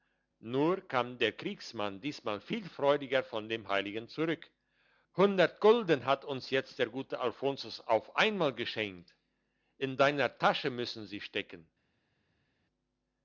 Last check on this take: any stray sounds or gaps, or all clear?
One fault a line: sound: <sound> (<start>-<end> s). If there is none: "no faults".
no faults